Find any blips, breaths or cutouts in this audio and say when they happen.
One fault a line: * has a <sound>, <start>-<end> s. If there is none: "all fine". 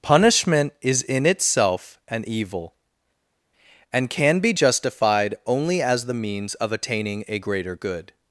all fine